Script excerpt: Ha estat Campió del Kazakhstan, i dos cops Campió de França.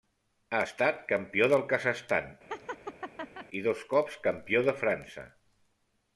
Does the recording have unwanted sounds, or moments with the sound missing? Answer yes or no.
yes